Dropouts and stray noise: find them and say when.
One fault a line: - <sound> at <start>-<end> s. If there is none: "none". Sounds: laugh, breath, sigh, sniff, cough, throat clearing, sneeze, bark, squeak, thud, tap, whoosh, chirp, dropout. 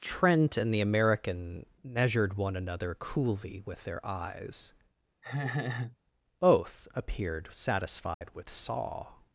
- laugh at 5.2-6.0 s
- dropout at 8.1-8.2 s